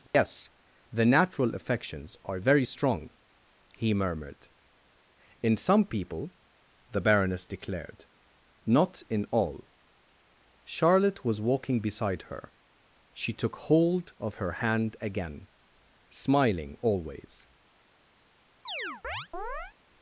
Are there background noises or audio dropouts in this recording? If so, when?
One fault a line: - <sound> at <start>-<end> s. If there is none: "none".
- dropout at 0.1-0.1 s
- chirp at 18.7-19.7 s